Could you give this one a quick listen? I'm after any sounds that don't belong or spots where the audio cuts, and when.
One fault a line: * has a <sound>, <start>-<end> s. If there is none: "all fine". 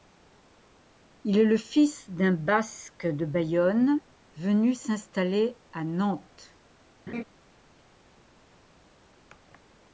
* has a laugh, 7.1-7.2 s